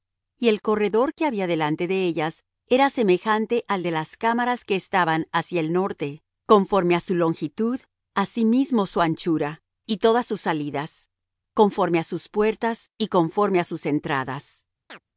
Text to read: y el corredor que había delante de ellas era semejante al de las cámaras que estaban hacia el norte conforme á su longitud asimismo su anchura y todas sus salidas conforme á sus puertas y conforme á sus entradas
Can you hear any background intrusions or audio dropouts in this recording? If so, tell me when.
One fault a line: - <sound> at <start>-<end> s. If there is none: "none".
- chirp at 14.9-15.0 s